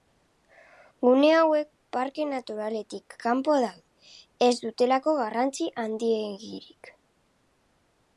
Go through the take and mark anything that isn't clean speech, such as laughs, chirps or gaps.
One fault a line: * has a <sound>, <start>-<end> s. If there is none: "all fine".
all fine